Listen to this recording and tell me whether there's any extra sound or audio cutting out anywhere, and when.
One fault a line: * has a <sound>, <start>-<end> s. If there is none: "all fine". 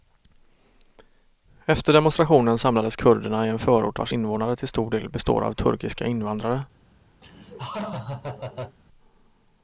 * has a laugh, 7.2-8.8 s